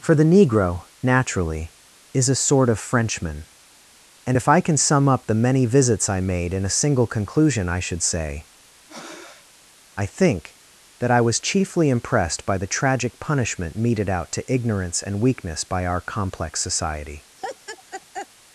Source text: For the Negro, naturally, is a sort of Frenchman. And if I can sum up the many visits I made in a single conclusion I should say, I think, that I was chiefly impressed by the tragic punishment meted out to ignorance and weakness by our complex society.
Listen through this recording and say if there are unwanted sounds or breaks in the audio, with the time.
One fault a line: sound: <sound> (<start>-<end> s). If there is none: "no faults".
sound: breath (8.9-9.5 s)
sound: laugh (17.4-18.3 s)